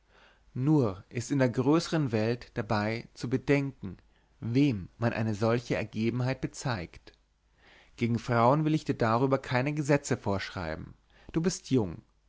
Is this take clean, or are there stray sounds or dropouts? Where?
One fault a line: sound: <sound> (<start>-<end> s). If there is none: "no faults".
no faults